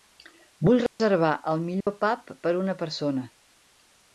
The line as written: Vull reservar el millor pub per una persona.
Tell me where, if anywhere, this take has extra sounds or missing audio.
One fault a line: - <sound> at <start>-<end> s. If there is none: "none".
- dropout at 0.9-1.0 s
- dropout at 1.8-1.9 s